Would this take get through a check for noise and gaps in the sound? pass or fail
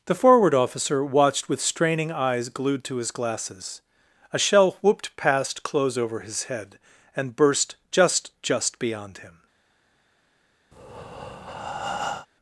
fail